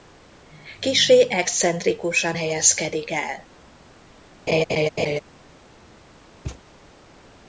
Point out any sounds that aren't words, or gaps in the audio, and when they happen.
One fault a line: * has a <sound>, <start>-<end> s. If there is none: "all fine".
* has a laugh, 4.5-5.2 s
* has a thud, 6.4-6.6 s